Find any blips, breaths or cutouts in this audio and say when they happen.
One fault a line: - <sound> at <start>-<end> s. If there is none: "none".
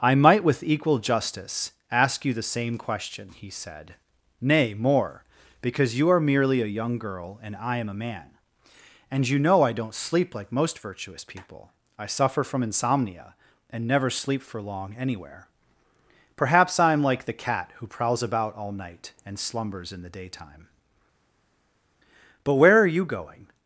none